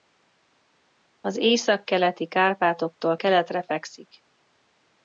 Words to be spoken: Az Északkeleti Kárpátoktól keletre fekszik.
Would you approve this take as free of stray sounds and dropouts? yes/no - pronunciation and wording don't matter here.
yes